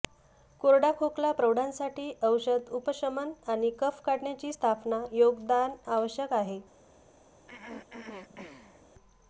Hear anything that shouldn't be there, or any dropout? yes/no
yes